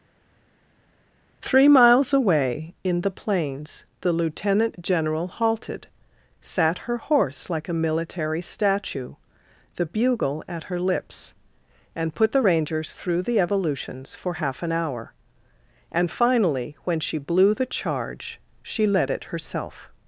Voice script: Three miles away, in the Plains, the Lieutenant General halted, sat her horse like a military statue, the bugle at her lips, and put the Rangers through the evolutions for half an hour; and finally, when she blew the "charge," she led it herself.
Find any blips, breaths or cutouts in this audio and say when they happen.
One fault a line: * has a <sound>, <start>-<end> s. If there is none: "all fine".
all fine